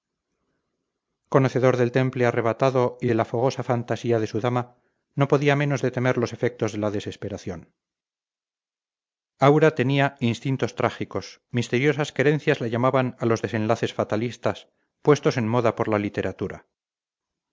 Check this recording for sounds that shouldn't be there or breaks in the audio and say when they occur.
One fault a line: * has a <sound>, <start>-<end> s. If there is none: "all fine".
all fine